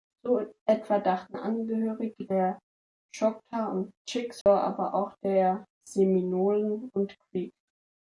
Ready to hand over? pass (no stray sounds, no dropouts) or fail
fail